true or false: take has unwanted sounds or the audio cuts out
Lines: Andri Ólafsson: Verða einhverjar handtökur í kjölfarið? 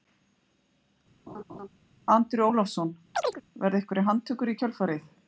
true